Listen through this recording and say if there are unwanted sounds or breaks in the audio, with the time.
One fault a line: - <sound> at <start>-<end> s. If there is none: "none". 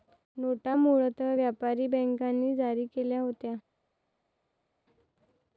none